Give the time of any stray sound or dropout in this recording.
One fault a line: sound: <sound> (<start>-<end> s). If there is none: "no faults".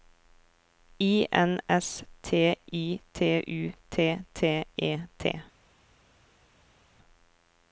no faults